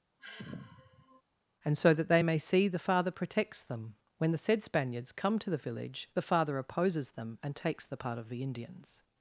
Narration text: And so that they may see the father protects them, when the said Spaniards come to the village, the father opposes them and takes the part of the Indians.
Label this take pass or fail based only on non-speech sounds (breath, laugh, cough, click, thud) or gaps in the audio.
fail